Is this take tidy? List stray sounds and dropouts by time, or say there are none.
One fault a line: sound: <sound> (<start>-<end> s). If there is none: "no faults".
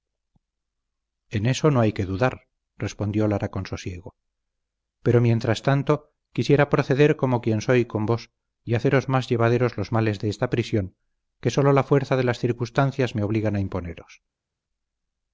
no faults